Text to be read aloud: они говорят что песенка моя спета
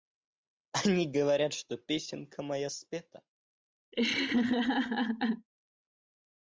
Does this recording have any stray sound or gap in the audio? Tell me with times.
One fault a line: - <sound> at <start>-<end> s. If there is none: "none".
- laugh at 3.9-5.5 s